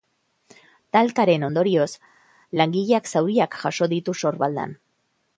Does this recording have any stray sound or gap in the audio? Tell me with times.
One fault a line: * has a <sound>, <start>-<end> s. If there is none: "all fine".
all fine